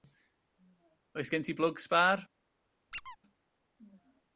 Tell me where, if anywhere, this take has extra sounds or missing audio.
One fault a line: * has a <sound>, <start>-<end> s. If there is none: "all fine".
* has a squeak, 2.9-3.2 s